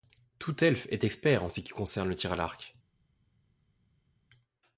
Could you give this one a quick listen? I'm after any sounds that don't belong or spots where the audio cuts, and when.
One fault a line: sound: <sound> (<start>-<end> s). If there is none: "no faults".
no faults